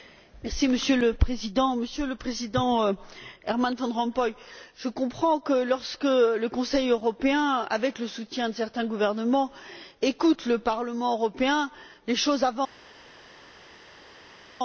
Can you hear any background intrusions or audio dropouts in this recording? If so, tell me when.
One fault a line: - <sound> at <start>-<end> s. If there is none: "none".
none